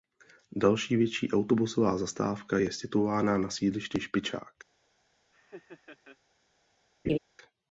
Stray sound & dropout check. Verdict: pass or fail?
fail